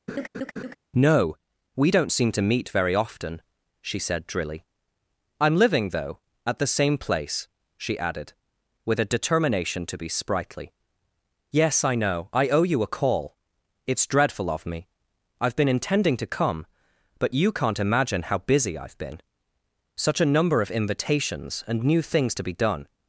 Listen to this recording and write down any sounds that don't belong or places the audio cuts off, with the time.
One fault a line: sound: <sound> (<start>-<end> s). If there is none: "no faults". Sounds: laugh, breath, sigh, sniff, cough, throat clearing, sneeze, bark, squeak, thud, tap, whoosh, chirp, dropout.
sound: laugh (0.1-0.8 s)